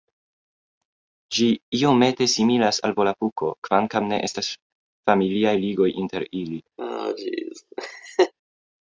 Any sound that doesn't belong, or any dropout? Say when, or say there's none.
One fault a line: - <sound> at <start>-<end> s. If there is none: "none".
- laugh at 6.8-8.3 s